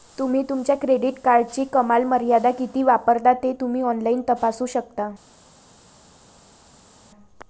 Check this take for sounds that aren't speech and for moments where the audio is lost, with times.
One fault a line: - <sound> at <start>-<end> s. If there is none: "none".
none